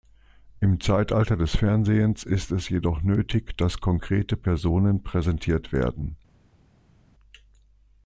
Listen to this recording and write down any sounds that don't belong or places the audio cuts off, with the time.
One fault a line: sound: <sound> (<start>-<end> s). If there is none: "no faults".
no faults